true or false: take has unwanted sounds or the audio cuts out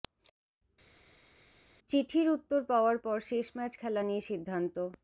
false